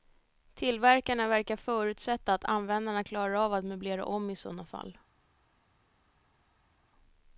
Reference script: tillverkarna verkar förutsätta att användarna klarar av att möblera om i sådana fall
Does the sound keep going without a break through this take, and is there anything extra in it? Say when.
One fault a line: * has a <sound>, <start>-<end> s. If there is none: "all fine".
all fine